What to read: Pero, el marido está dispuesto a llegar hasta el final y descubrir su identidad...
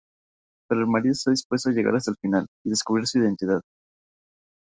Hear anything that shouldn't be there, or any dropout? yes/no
no